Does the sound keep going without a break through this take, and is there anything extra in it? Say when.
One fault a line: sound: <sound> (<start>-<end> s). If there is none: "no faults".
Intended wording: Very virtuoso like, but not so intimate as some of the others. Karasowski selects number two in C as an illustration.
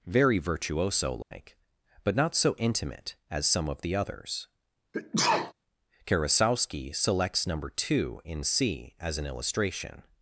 sound: dropout (1.2-1.3 s)
sound: sneeze (4.9-5.5 s)